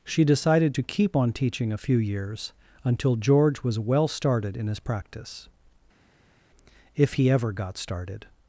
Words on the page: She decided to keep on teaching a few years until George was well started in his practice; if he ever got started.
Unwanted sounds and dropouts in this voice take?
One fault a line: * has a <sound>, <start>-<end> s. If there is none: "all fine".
all fine